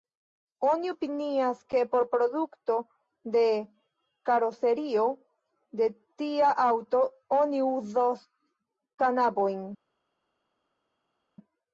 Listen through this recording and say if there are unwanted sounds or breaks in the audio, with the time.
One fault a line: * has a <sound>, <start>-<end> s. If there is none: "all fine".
all fine